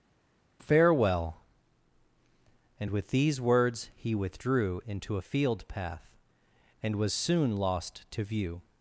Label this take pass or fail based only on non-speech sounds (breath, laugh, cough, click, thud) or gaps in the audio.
pass